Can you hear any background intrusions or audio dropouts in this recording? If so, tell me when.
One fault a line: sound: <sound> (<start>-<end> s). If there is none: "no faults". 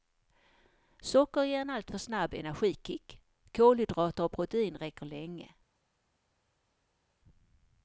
no faults